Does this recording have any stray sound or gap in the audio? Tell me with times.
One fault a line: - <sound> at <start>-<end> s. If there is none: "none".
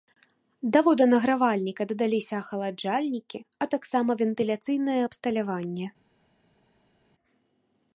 none